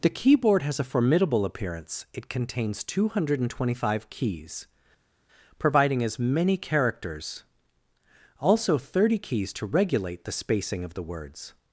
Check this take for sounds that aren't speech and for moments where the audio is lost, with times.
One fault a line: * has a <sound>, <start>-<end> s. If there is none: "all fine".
all fine